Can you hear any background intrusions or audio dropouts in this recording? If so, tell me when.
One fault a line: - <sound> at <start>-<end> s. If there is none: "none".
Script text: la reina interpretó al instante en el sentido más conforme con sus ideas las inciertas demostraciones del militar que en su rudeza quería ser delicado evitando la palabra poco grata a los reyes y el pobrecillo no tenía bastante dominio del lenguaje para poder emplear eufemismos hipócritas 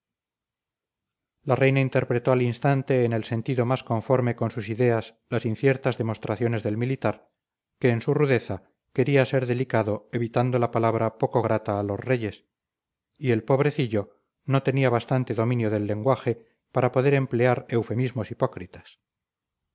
none